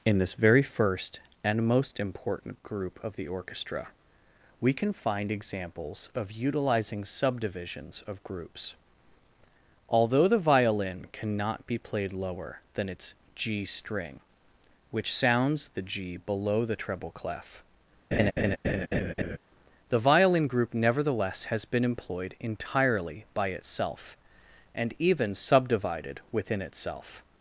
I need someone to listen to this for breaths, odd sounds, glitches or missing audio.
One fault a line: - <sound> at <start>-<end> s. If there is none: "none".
- laugh at 18.1-19.4 s